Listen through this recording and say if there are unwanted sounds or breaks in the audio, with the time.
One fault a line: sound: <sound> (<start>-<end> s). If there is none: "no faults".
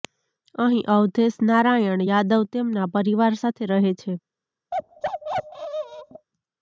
sound: bark (4.7-6.3 s)